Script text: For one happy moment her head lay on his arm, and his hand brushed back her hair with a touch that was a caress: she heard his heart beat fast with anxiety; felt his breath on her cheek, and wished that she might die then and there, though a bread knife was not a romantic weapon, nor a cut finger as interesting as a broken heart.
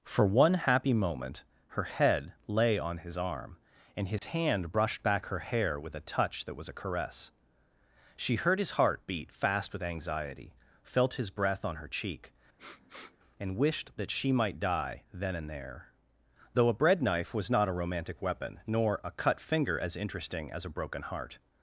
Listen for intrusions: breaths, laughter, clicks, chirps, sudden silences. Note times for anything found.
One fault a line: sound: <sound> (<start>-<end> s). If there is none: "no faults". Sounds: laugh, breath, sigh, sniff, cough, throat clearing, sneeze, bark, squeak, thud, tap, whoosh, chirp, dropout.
sound: dropout (4.2-4.2 s)
sound: sniff (12.6-13.2 s)